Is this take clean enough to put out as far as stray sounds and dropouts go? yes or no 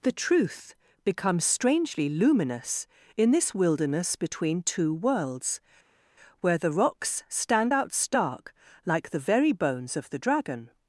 yes